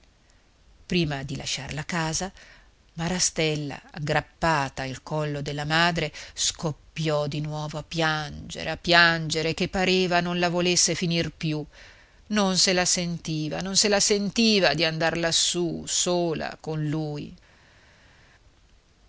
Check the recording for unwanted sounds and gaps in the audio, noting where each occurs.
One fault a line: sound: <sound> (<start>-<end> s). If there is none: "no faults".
no faults